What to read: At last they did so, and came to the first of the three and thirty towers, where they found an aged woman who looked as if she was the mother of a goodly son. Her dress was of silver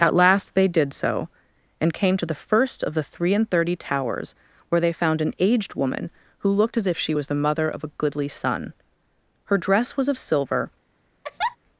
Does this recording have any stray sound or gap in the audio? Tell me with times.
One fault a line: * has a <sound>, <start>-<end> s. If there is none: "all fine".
* has a laugh, 11.2-11.6 s